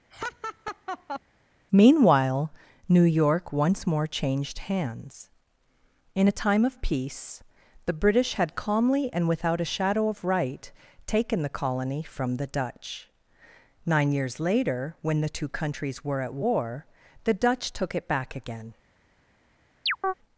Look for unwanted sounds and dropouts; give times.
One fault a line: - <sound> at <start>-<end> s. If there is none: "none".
- laugh at 0.1-1.2 s
- chirp at 19.9-20.1 s